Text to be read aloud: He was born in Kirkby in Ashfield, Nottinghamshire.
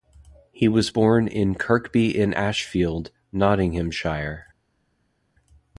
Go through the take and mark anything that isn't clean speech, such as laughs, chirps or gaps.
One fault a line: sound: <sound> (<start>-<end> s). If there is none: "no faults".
no faults